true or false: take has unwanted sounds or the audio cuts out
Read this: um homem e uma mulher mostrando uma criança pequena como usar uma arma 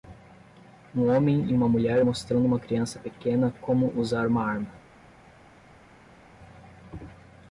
false